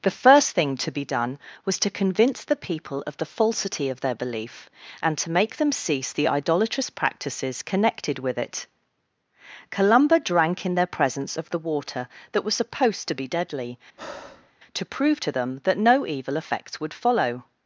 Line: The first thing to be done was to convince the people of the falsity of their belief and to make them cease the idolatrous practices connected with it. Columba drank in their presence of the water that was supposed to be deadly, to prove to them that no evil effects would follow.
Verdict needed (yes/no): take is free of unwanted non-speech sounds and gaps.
no